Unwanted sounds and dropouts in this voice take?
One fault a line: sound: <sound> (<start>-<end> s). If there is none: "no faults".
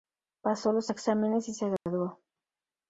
sound: dropout (1.8-1.9 s)